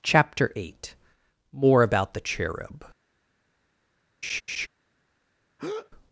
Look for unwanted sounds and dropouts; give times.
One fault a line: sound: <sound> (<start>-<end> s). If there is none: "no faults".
sound: laugh (4.2-4.7 s)
sound: breath (5.6-5.9 s)